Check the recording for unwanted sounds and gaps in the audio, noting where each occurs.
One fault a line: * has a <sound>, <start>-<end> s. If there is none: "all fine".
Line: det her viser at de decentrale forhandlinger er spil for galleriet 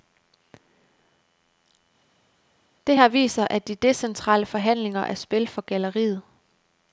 all fine